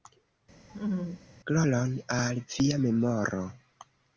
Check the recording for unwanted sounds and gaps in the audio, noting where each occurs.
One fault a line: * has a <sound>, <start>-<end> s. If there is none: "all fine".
* has a laugh, 0.7-1.3 s